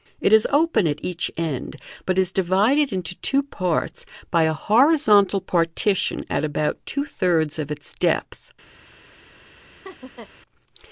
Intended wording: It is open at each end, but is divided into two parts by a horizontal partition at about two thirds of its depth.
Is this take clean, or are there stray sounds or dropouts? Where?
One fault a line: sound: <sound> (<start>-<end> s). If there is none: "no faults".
sound: laugh (9.8-10.3 s)